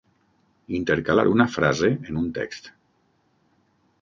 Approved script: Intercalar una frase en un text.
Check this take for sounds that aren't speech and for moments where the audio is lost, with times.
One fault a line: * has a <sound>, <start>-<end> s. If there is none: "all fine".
all fine